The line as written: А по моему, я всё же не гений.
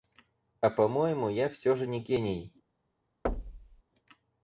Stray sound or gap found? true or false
true